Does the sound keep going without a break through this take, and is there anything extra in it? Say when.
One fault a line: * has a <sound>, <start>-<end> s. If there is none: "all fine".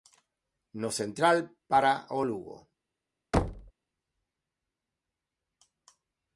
* has a thud, 3.3-3.7 s